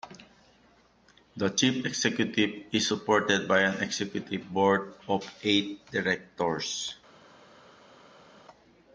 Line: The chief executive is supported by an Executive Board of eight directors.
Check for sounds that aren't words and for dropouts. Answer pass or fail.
pass